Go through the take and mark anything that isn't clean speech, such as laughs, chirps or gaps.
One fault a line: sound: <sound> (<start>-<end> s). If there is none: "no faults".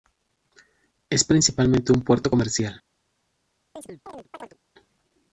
sound: chirp (3.8-4.6 s)